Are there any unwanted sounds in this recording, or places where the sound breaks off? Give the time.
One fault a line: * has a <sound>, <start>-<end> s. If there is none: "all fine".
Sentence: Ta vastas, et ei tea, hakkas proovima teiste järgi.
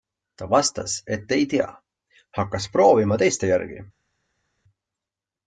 all fine